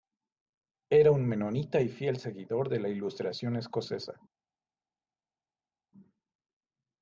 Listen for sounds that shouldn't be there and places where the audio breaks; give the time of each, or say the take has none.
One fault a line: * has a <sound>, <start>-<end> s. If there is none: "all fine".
all fine